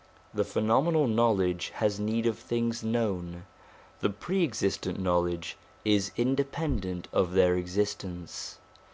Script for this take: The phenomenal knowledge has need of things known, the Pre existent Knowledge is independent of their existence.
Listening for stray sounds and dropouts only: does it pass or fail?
pass